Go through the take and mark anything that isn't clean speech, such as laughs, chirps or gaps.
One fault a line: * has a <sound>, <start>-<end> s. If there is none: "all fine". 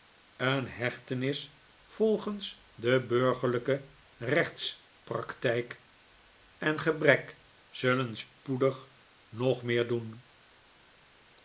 all fine